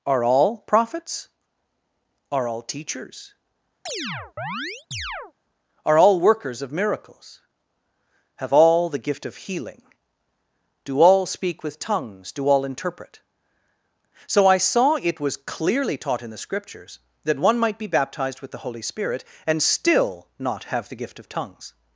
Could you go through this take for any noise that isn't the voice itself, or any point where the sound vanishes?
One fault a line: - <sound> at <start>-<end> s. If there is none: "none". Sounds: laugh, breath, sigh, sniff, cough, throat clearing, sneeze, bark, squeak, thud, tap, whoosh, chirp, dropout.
- chirp at 3.9-5.3 s